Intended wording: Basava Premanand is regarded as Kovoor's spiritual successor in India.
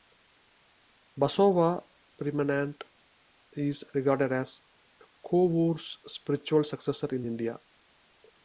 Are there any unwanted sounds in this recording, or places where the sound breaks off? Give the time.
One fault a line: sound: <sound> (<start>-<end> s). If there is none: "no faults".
no faults